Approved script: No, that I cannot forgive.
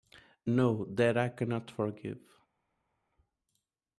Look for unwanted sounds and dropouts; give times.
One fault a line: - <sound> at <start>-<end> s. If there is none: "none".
none